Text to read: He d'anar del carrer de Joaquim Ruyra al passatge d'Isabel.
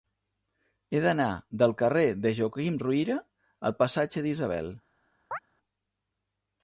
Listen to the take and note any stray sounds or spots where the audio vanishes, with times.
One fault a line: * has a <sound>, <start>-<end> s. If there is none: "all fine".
* has a chirp, 5.3-5.4 s